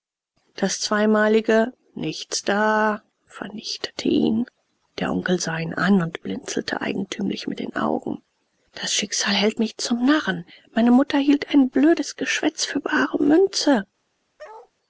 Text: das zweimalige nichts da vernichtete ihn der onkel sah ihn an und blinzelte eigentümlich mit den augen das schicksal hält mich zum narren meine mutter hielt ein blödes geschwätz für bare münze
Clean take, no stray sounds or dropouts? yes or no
no